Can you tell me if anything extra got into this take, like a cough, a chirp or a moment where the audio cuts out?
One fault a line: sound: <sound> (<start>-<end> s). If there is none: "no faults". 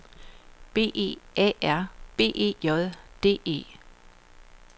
no faults